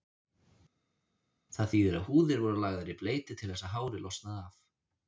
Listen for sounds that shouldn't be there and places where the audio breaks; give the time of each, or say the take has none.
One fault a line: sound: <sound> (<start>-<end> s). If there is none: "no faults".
no faults